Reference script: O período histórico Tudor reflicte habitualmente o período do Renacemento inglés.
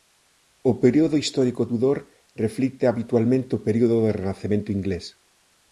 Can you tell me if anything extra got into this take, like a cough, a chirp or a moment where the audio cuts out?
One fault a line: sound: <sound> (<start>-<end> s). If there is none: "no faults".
no faults